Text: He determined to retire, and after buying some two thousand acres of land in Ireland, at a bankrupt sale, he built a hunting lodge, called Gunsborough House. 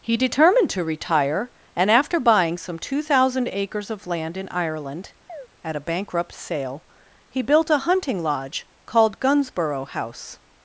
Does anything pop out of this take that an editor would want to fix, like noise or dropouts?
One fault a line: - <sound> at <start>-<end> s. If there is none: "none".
- chirp at 5.3-5.5 s